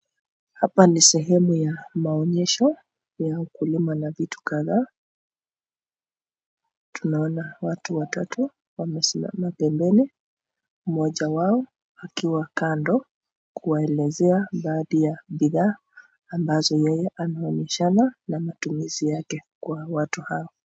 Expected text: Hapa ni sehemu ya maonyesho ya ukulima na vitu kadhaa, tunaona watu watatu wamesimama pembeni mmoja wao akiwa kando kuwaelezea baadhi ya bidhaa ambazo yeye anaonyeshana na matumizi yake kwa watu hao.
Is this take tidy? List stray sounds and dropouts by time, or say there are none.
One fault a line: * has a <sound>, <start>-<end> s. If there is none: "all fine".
all fine